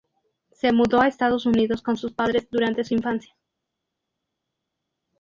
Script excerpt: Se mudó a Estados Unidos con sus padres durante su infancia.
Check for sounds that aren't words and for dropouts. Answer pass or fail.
pass